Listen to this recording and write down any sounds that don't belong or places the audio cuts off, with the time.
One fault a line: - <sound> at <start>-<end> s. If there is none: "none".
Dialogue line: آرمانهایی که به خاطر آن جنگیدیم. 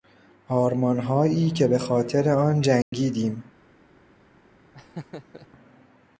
- dropout at 2.8-2.9 s
- laugh at 4.7-5.5 s